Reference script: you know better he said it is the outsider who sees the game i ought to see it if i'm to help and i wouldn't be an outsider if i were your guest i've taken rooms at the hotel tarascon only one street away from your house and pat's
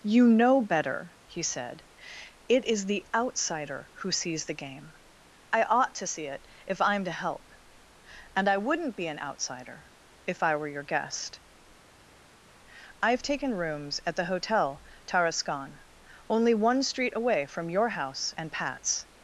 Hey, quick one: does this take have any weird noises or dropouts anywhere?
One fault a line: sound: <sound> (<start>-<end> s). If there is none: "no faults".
no faults